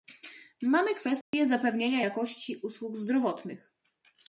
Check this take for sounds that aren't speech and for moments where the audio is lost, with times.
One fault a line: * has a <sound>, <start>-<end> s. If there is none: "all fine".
* has a dropout, 1.2-1.3 s